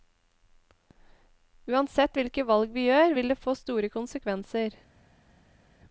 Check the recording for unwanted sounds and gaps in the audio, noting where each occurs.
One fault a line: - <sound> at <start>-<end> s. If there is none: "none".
none